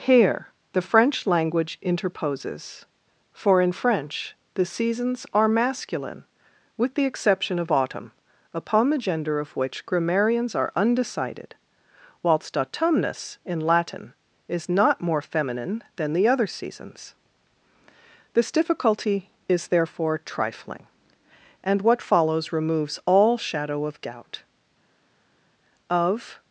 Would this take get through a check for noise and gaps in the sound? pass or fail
pass